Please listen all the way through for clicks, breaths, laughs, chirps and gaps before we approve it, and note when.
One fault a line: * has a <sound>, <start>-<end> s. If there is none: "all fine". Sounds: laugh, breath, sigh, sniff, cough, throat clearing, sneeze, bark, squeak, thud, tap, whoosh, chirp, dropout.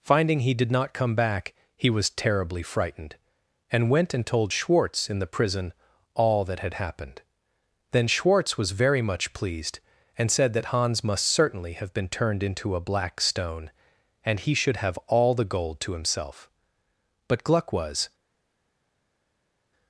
all fine